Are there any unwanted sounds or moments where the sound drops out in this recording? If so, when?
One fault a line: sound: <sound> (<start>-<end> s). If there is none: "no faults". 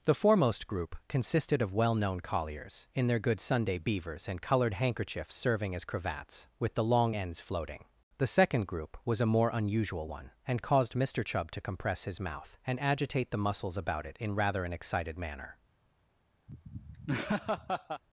sound: laugh (16.5-18.0 s)